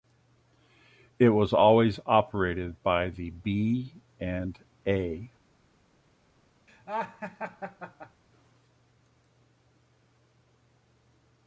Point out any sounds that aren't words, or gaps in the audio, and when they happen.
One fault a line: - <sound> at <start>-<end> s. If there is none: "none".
- laugh at 6.7-8.2 s